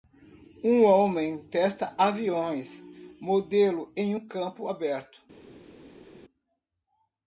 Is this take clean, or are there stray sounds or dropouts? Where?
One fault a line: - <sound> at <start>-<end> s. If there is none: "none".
none